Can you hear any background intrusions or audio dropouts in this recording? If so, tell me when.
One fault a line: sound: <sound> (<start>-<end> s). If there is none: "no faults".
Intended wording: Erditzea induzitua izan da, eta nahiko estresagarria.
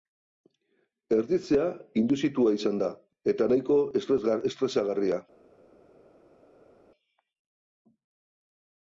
no faults